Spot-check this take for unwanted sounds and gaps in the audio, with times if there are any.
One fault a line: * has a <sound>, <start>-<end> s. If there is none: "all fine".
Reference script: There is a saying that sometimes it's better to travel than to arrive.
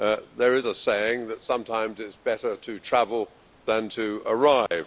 * has a dropout, 4.7-4.7 s